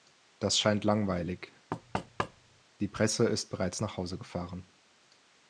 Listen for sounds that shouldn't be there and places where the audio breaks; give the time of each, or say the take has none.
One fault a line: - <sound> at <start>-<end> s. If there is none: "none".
- thud at 1.7-2.6 s